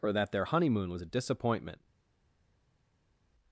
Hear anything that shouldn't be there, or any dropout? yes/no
no